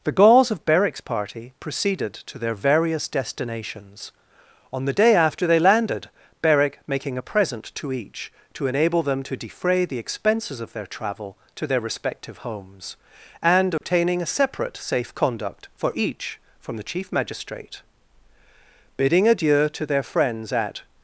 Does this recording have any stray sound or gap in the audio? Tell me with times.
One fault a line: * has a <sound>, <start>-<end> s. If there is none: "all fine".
* has a dropout, 13.8-13.8 s